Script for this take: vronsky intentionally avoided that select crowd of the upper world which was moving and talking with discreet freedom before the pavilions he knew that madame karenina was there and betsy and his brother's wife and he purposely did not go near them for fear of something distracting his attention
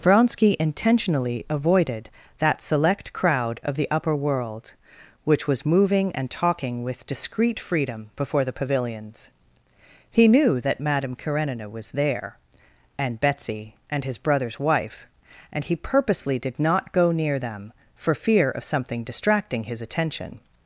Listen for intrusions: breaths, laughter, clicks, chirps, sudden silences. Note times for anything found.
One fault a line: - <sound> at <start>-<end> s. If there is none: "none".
none